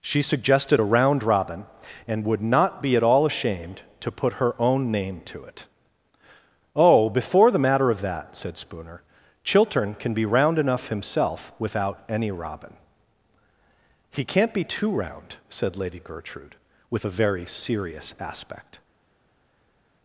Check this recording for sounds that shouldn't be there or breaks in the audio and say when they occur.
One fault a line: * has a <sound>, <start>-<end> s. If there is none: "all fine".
all fine